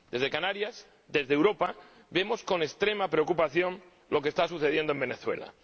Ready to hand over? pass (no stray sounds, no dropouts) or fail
pass